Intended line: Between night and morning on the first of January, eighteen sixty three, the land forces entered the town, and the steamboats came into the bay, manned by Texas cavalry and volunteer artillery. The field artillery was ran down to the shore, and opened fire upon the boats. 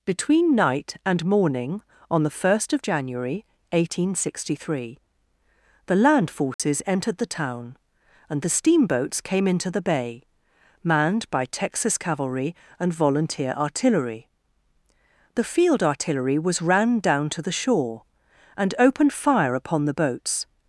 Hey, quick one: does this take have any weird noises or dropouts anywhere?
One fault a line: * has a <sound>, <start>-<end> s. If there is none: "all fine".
* has a dropout, 6.5-6.6 s